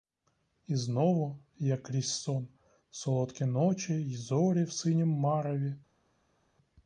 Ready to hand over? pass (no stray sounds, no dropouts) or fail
pass